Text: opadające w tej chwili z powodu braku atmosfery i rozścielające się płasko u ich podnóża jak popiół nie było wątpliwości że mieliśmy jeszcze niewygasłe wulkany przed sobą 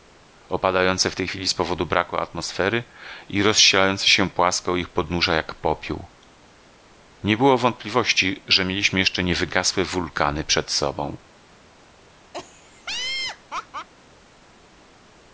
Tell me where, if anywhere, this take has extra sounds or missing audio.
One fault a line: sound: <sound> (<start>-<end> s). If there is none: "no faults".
sound: laugh (12.3-13.9 s)